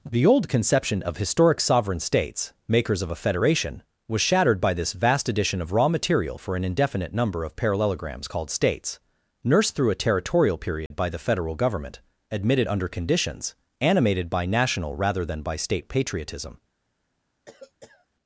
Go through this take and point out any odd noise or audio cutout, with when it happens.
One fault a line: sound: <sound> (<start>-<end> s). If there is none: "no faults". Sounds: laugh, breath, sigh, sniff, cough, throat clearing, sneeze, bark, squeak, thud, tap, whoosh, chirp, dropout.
sound: dropout (10.9-10.9 s)
sound: cough (17.5-18.1 s)